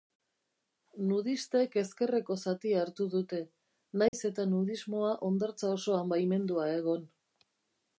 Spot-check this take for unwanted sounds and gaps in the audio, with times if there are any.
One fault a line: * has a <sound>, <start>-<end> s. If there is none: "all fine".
* has a dropout, 4.1-4.1 s